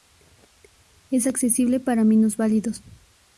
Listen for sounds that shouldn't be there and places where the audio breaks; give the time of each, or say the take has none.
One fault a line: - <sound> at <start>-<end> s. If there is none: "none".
none